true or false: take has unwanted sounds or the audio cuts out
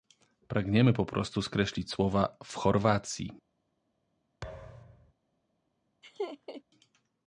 true